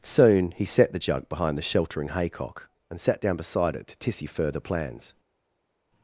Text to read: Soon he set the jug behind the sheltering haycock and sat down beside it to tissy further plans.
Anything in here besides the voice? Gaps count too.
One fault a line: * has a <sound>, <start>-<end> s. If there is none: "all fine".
all fine